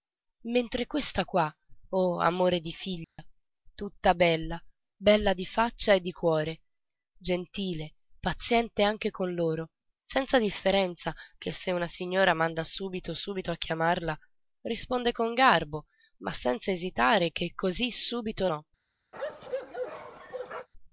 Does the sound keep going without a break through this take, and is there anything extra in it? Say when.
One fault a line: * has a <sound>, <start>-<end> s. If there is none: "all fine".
* has a dropout, 3.0-3.2 s
* has a bark, 19.1-20.7 s